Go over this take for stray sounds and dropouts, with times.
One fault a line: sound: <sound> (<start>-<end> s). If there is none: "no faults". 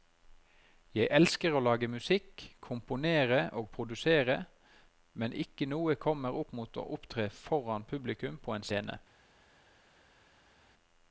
no faults